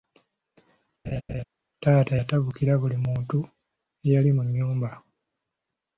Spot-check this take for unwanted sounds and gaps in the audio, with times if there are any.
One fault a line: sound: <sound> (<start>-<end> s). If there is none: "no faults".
sound: laugh (1.0-1.4 s)